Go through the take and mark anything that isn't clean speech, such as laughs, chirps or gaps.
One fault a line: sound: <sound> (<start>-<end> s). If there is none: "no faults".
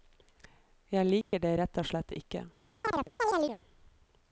sound: dropout (1.2-1.3 s)
sound: chirp (2.8-3.6 s)